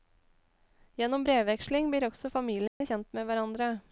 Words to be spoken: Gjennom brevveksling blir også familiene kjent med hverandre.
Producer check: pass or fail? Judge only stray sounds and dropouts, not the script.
fail